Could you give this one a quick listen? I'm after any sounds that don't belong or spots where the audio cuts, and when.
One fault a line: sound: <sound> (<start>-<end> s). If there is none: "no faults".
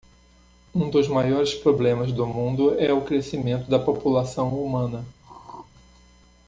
sound: throat clearing (5.2-5.7 s)